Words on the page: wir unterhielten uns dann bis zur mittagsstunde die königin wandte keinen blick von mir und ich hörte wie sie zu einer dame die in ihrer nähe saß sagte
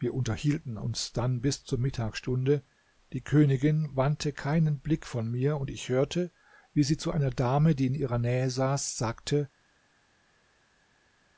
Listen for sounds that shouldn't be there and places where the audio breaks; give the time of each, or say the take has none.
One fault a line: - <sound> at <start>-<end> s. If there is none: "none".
none